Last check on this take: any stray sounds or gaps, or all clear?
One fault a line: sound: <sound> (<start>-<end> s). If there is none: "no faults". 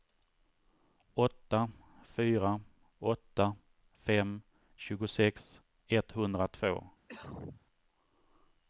sound: cough (7.1-7.7 s)